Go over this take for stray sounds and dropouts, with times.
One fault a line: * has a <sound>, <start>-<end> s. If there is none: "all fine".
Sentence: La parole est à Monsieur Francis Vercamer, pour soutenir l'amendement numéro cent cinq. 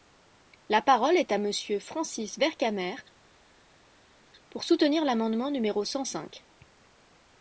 all fine